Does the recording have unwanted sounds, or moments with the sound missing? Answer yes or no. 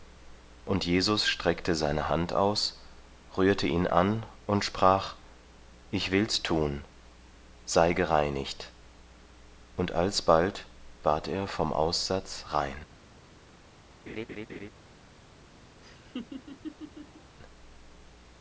yes